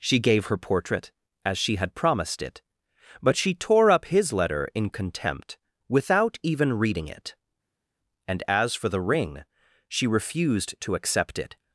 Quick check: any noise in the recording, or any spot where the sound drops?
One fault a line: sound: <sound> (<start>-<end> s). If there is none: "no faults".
no faults